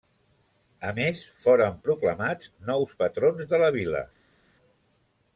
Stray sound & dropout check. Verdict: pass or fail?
pass